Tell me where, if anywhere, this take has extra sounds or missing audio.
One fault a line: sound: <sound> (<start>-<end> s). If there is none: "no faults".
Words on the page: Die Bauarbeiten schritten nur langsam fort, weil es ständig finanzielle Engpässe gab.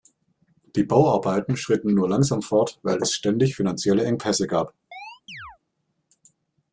sound: chirp (4.9-5.6 s)